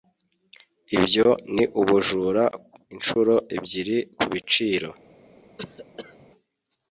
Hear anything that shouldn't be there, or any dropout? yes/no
yes